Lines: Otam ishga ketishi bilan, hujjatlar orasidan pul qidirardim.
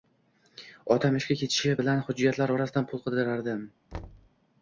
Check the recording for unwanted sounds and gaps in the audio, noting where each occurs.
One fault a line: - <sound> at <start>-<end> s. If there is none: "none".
- thud at 3.9-4.3 s